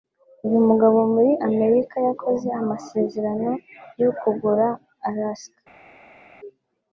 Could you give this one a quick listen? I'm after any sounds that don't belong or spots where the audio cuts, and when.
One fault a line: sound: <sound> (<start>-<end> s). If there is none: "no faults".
no faults